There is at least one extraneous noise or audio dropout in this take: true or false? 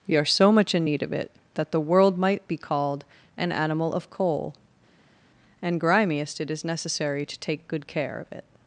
false